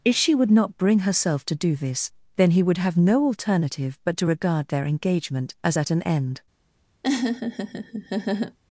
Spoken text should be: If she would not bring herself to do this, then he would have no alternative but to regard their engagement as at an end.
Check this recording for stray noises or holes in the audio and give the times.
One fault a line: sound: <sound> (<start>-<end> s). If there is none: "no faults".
sound: laugh (7.0-8.6 s)